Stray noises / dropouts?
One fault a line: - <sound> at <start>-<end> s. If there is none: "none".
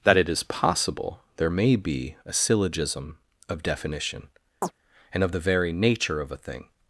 - chirp at 4.6-4.7 s